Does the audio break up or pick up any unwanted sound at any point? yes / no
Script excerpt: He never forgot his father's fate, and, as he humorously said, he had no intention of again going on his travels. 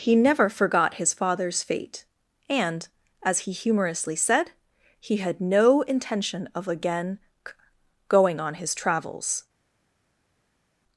no